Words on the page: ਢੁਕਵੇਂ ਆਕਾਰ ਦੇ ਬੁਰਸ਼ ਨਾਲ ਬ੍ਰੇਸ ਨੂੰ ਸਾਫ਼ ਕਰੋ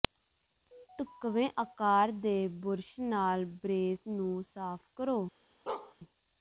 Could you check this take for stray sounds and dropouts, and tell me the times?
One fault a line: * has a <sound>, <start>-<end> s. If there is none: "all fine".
* has a bark, 5.7-5.9 s